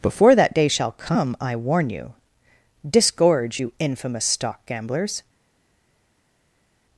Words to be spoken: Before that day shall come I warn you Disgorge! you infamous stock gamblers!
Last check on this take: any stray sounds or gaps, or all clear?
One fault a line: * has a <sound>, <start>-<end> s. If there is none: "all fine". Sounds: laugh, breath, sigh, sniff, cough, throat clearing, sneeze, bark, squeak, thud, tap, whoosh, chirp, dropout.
all fine